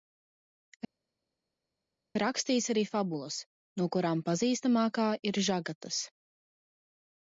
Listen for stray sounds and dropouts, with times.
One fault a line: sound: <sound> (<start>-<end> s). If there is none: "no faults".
no faults